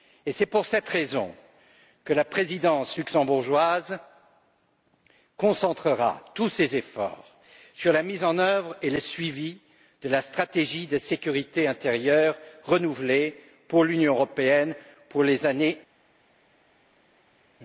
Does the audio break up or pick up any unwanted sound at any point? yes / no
no